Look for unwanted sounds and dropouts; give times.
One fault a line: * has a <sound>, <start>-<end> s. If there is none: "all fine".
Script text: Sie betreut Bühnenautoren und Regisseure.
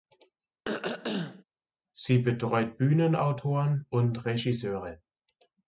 * has a throat clearing, 0.6-1.4 s